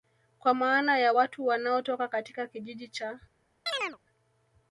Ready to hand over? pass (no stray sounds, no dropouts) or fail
fail